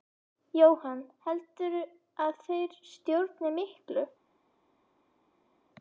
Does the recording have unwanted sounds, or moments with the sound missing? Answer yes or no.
no